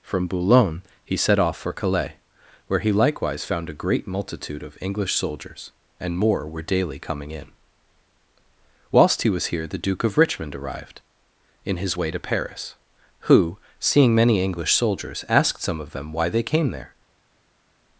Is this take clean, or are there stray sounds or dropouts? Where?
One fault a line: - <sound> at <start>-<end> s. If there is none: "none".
none